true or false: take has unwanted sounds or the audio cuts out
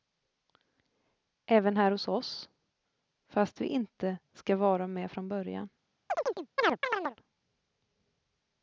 true